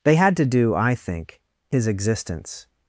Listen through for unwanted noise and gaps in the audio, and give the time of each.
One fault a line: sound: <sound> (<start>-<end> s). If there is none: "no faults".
no faults